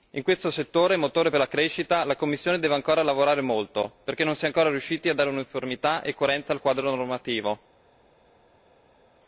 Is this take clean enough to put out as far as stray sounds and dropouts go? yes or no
yes